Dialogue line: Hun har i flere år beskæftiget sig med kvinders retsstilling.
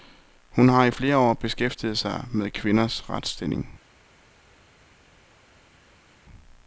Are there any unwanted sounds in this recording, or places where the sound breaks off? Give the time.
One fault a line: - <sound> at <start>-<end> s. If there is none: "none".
none